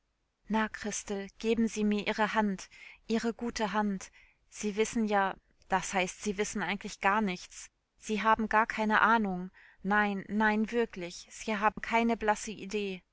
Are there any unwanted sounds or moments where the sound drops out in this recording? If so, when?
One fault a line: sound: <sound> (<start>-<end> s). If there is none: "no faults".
sound: dropout (11.7-11.8 s)